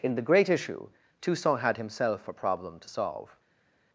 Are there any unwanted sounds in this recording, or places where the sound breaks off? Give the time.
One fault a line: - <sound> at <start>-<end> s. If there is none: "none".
none